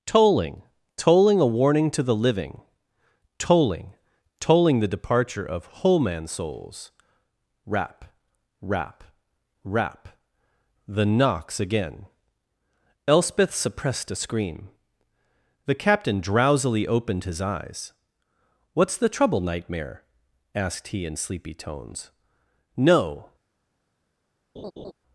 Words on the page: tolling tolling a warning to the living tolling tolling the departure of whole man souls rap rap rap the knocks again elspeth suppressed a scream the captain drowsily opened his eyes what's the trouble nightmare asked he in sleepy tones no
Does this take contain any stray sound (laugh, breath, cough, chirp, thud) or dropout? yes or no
yes